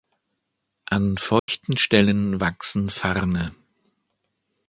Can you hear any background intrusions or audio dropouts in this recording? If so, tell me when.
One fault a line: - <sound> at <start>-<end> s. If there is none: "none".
- dropout at 1.4-1.5 s